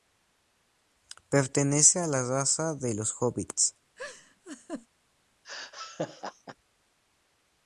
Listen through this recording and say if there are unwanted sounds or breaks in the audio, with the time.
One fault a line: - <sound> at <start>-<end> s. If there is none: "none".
- laugh at 4.0-4.9 s
- laugh at 5.4-6.6 s